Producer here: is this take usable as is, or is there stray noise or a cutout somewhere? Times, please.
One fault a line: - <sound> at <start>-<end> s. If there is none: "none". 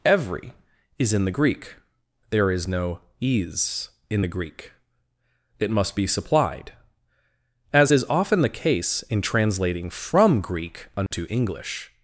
- dropout at 11.1-11.1 s